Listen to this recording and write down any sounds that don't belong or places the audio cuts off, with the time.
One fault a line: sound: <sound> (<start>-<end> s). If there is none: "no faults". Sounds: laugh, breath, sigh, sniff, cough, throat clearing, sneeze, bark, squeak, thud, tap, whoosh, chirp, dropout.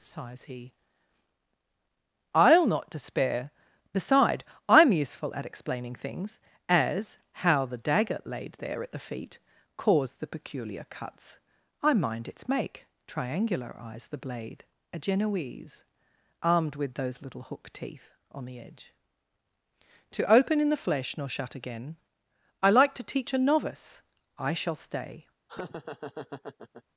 sound: laugh (25.5-26.8 s)